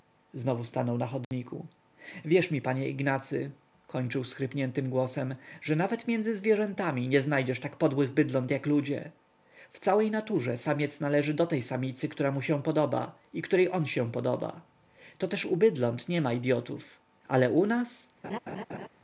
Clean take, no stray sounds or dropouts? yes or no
no